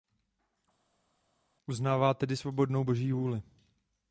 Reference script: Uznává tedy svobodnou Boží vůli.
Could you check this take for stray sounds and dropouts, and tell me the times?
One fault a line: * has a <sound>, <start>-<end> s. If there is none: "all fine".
all fine